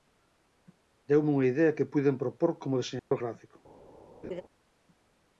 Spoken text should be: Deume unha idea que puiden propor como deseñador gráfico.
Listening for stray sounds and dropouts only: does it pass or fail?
fail